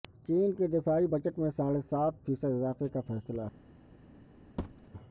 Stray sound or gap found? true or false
true